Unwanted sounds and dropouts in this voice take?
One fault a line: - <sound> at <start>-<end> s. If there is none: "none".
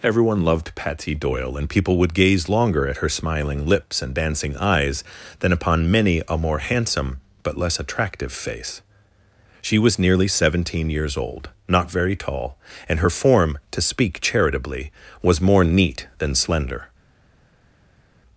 none